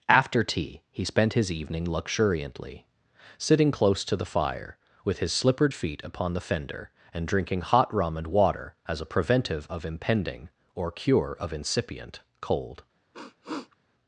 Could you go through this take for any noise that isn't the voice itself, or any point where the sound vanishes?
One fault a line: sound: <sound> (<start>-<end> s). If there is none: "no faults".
sound: sniff (13.1-13.8 s)